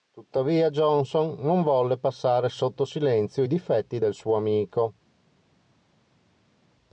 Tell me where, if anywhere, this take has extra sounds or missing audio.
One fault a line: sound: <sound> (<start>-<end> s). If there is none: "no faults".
no faults